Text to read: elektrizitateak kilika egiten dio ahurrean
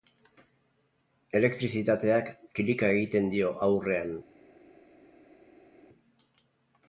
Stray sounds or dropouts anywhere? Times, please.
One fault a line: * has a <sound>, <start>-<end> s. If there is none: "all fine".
all fine